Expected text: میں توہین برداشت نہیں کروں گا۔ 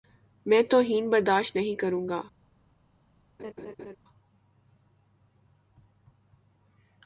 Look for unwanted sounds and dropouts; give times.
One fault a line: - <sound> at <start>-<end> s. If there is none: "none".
- laugh at 3.4-4.0 s